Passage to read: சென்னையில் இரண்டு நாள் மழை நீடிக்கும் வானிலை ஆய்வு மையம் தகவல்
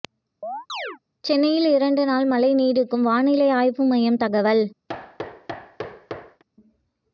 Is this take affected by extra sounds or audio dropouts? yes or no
yes